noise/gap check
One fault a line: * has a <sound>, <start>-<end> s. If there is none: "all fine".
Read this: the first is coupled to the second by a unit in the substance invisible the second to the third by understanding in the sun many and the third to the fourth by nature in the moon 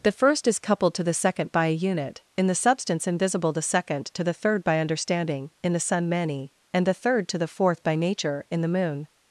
all fine